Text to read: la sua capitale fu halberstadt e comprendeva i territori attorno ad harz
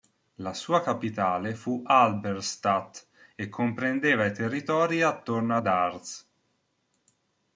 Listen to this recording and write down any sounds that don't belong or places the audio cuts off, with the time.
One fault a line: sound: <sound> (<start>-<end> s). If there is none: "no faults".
no faults